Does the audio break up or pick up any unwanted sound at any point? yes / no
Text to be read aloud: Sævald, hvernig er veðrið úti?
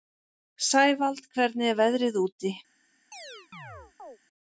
yes